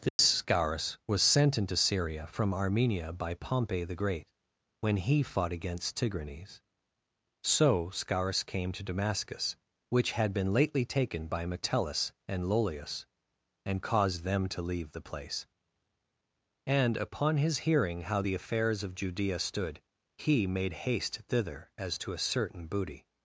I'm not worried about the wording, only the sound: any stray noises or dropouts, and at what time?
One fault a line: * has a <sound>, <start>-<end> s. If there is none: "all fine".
* has a dropout, 0.1-0.2 s